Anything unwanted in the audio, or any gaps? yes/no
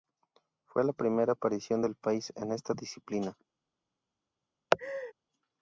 yes